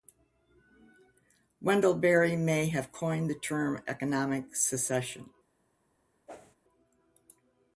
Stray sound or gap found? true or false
true